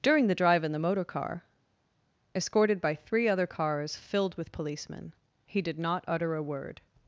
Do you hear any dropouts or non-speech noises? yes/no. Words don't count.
no